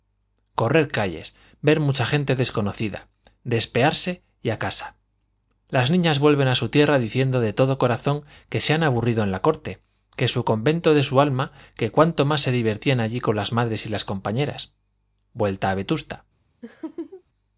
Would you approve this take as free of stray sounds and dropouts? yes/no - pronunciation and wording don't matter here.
no